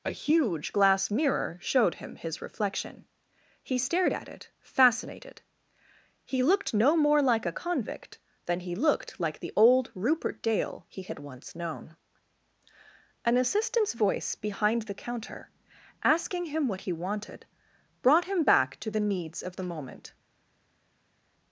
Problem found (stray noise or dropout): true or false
false